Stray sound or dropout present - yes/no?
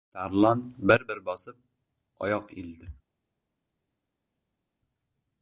no